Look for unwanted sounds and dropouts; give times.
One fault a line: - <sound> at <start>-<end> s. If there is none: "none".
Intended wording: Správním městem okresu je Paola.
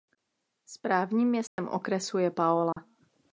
- dropout at 1.5-1.6 s
- dropout at 2.7-2.8 s